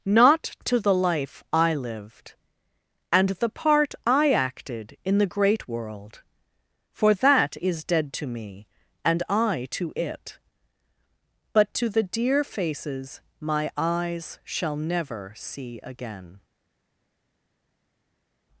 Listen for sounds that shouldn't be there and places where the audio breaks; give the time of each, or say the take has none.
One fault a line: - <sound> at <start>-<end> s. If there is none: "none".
none